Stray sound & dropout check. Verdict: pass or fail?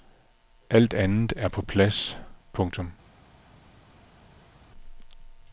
pass